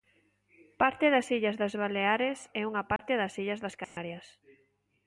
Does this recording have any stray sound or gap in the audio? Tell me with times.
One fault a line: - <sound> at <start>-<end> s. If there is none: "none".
- dropout at 3.0-3.0 s
- dropout at 3.8-4.0 s